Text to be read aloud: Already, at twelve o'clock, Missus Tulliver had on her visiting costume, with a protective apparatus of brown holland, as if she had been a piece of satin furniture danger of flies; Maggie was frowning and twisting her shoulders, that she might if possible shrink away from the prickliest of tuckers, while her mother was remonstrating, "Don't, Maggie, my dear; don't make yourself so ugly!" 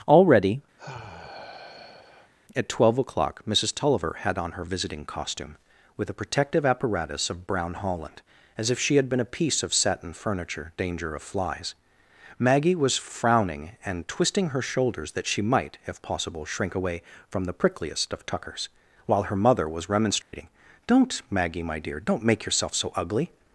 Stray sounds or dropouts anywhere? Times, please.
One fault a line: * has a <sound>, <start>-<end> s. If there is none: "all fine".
* has a sigh, 0.8-2.3 s
* has a dropout, 20.2-20.3 s